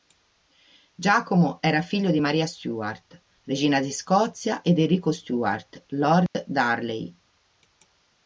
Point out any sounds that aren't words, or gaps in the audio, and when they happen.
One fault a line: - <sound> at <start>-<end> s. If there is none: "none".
- dropout at 6.3-6.3 s